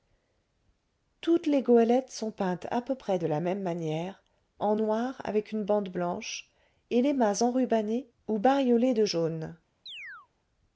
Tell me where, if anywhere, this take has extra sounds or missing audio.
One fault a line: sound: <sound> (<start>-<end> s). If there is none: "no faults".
sound: chirp (9.9-10.3 s)